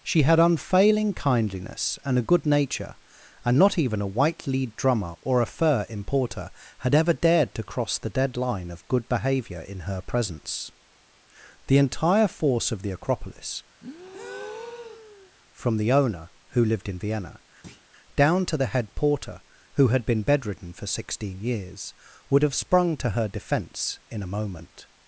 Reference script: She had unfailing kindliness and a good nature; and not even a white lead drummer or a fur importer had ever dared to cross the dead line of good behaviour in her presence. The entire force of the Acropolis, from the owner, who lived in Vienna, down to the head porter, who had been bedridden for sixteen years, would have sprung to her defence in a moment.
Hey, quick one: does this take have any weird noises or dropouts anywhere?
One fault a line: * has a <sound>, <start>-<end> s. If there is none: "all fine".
* has a breath, 13.8-15.3 s
* has a thud, 17.6-17.9 s